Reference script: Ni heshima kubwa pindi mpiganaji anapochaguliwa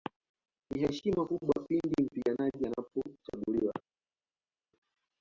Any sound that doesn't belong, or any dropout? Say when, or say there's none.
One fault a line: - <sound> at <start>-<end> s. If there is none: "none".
none